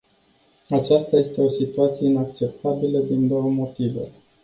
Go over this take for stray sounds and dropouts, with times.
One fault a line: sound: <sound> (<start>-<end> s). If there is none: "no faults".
no faults